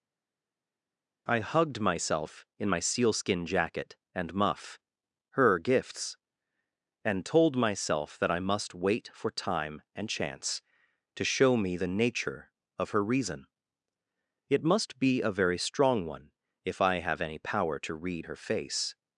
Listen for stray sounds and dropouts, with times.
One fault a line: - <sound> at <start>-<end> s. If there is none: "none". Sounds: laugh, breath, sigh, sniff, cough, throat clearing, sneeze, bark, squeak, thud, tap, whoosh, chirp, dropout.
none